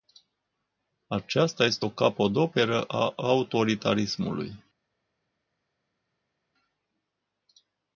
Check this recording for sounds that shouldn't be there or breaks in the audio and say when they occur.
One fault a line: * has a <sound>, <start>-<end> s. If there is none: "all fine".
all fine